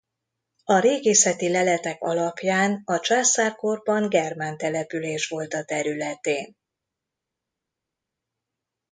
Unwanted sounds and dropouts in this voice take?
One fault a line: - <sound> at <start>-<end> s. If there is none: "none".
none